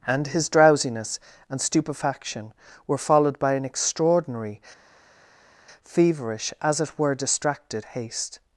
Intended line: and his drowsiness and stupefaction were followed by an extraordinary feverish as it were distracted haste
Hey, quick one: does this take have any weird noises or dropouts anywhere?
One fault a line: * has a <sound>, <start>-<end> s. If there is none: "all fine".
all fine